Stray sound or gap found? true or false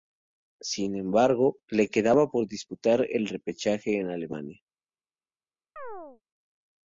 true